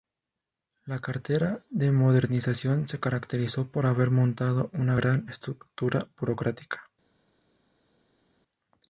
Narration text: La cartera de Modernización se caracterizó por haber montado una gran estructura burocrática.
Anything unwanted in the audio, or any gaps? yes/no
no